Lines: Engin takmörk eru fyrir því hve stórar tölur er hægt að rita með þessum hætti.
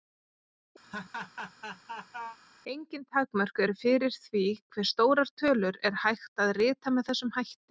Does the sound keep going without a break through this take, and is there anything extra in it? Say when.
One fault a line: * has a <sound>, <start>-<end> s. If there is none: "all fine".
* has a laugh, 0.8-2.4 s